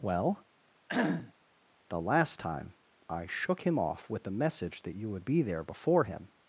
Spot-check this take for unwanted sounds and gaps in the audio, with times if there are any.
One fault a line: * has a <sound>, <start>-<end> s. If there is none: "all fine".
* has a cough, 0.9-1.3 s